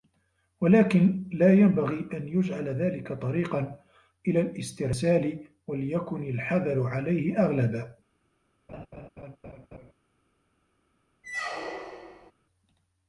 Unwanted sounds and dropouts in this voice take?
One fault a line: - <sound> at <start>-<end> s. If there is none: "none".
- laugh at 8.7-9.9 s
- squeak at 11.2-12.3 s